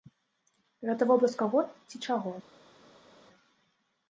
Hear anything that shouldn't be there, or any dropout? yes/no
no